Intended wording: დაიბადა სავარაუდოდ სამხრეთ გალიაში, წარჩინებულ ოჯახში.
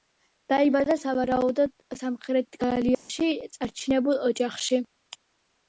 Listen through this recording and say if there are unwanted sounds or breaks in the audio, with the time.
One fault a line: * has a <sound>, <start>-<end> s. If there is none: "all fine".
* has a dropout, 2.9-3.1 s